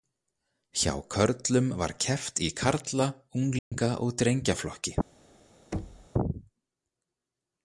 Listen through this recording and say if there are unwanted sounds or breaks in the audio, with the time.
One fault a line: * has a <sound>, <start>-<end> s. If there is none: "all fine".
* has a dropout, 3.6-3.7 s
* has a thud, 5.7-6.1 s